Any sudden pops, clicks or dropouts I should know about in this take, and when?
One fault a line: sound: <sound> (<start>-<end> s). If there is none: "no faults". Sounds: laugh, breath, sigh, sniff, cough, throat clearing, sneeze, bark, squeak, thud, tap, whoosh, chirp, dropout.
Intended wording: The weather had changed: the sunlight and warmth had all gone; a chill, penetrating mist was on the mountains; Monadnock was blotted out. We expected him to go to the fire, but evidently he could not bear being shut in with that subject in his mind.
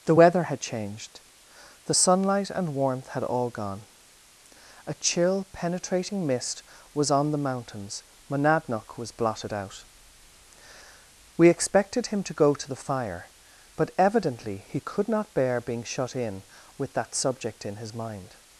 no faults